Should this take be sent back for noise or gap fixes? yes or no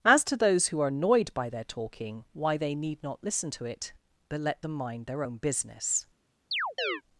yes